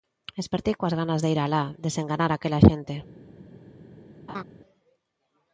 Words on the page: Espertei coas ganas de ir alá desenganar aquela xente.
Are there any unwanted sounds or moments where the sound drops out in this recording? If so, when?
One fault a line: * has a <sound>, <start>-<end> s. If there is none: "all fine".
* has a laugh, 4.3-4.4 s